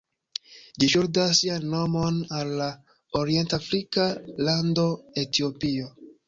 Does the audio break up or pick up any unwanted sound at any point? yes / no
no